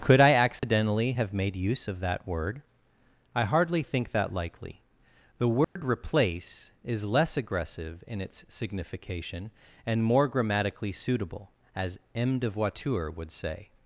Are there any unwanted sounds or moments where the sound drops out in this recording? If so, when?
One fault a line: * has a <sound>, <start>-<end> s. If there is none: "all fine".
* has a dropout, 0.6-0.6 s
* has a dropout, 5.6-5.8 s